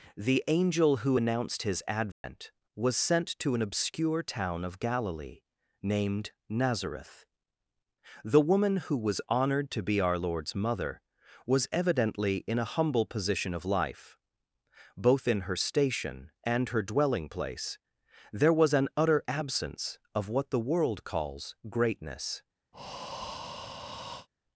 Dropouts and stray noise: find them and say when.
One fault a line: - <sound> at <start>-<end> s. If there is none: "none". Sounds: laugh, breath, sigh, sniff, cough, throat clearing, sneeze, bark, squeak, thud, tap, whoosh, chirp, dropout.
- dropout at 2.1-2.2 s
- breath at 22.7-24.3 s